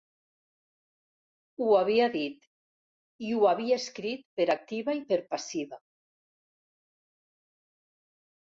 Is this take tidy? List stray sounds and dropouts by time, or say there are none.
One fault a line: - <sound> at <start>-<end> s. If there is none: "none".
none